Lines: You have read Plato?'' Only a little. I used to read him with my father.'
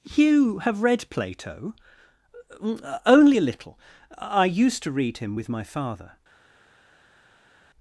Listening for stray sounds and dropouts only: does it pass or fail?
pass